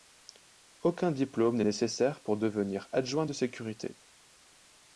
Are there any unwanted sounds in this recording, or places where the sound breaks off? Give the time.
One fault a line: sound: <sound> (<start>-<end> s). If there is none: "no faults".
no faults